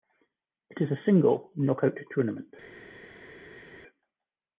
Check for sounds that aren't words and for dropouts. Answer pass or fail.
pass